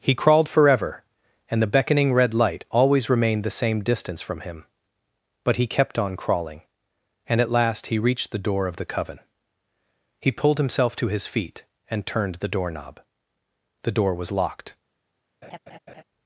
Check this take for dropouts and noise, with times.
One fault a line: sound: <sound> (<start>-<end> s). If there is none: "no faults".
sound: laugh (15.4-16.0 s)